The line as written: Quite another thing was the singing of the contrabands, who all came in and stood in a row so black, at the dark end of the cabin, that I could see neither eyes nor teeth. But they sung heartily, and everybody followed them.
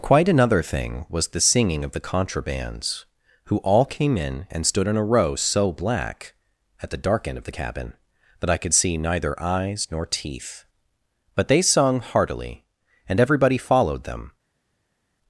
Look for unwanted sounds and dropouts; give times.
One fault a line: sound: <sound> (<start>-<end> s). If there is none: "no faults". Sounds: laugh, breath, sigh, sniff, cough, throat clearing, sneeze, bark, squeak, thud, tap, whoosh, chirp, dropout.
no faults